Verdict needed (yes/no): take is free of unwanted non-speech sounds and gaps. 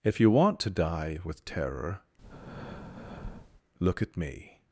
no